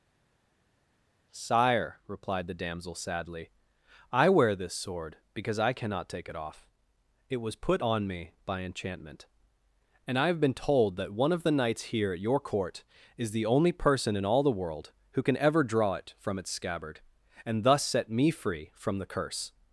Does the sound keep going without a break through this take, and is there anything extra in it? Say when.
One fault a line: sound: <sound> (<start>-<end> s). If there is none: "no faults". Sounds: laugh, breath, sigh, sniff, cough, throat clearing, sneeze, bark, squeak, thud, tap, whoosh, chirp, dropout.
no faults